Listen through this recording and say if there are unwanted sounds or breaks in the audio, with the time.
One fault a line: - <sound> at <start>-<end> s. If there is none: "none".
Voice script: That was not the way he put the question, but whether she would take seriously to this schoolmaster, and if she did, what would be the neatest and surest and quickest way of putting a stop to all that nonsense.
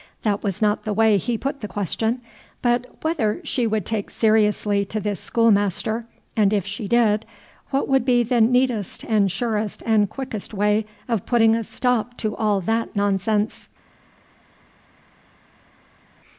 none